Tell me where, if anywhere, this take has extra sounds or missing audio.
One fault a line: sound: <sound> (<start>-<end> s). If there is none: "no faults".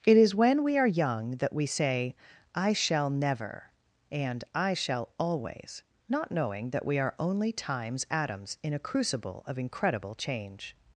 no faults